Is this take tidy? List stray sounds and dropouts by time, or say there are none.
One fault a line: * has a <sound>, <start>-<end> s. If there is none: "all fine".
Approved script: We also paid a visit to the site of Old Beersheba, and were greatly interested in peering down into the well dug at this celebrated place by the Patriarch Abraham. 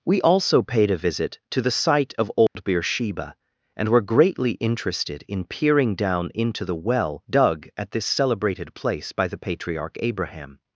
* has a dropout, 2.5-2.6 s